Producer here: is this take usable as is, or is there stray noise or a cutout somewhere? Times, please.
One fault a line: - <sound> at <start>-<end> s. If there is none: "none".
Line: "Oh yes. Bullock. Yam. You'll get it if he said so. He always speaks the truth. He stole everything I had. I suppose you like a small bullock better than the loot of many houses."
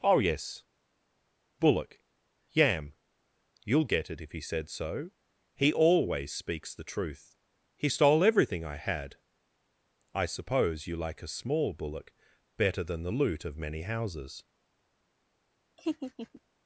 - laugh at 15.8-16.4 s